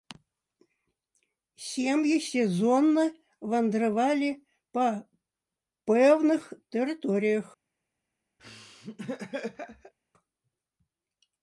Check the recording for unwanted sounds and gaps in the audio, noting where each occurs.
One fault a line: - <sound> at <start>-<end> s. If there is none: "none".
- laugh at 8.4-9.9 s